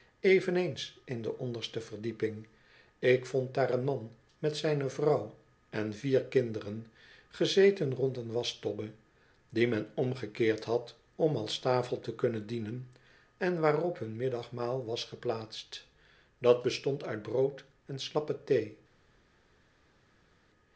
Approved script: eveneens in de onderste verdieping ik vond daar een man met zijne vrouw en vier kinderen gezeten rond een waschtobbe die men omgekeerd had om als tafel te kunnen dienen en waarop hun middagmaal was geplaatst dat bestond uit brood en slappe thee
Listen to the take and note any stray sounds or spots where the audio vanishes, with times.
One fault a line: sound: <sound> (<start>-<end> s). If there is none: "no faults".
no faults